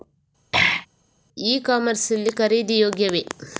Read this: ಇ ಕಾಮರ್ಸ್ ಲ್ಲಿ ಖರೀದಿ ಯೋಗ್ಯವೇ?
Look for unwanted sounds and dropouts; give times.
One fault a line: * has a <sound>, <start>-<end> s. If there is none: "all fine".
* has a throat clearing, 0.5-0.9 s